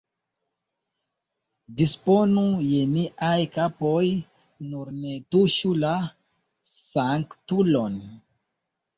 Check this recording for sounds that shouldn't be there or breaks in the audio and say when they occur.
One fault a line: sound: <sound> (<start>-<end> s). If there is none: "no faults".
no faults